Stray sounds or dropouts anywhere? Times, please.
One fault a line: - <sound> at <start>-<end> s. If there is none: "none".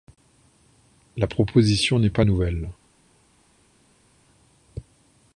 none